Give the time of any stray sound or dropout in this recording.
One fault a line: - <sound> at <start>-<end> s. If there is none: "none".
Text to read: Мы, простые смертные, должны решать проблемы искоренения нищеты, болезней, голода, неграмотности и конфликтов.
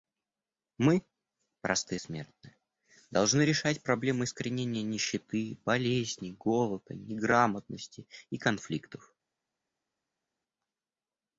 none